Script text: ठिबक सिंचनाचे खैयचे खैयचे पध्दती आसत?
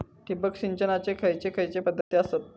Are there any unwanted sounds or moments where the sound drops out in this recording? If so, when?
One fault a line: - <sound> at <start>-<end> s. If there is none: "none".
- dropout at 2.0-2.1 s